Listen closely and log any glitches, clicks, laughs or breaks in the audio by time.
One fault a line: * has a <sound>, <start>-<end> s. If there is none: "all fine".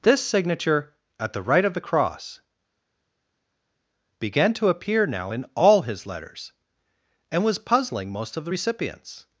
all fine